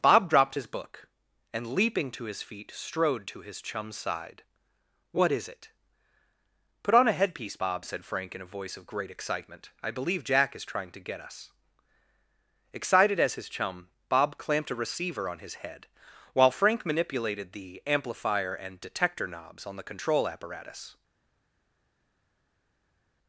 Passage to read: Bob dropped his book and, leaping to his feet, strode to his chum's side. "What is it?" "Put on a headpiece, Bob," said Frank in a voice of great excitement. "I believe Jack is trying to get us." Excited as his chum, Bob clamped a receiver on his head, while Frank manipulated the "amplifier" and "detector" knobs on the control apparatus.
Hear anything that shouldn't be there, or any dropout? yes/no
no